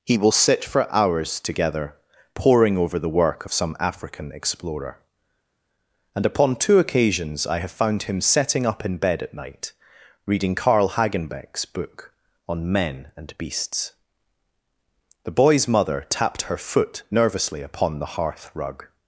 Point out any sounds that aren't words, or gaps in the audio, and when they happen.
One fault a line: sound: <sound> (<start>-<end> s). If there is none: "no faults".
no faults